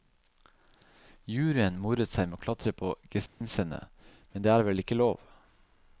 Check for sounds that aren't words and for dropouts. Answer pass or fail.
fail